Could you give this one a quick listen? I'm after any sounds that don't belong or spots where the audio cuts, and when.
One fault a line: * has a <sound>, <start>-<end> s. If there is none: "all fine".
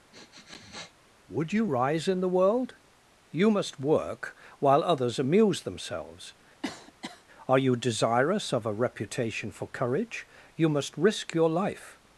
* has a sniff, 0.1-0.9 s
* has a cough, 6.6-7.2 s